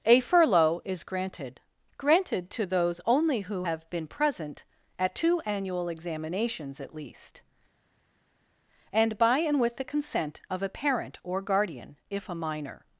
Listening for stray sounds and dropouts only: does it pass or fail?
pass